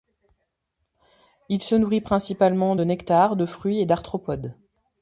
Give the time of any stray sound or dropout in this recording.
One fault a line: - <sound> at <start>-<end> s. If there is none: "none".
none